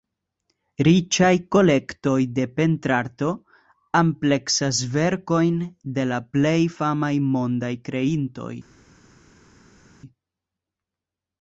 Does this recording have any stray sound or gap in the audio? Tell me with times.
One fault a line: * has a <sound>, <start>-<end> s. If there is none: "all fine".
all fine